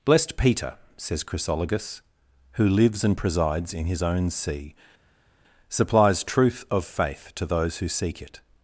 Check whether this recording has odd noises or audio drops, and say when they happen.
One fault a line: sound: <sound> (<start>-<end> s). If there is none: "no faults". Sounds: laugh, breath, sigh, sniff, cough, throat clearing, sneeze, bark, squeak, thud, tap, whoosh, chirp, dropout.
no faults